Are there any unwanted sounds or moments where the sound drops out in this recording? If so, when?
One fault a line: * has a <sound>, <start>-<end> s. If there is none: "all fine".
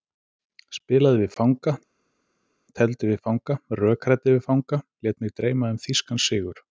all fine